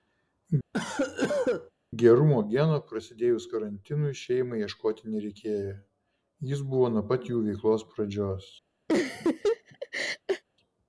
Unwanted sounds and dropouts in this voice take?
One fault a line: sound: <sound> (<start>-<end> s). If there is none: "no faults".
sound: cough (0.7-1.7 s)
sound: laugh (8.9-10.4 s)